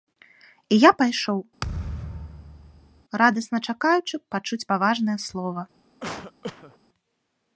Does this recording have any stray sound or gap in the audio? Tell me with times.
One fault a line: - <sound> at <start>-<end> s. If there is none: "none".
- thud at 1.6-3.0 s
- cough at 6.0-6.8 s